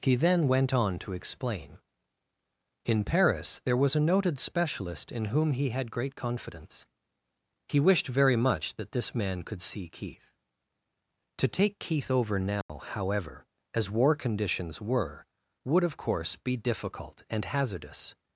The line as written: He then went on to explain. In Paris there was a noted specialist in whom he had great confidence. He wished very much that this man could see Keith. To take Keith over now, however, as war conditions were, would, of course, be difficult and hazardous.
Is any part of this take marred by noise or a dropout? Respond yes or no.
yes